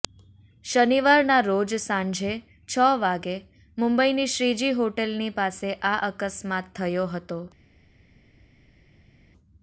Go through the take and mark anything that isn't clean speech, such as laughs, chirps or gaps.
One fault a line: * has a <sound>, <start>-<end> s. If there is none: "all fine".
all fine